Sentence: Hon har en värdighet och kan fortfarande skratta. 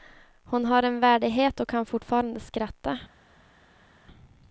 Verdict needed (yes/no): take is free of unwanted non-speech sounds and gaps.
yes